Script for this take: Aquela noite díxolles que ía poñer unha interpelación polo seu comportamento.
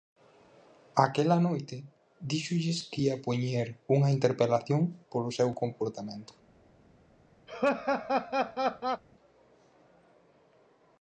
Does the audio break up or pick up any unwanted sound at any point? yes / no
yes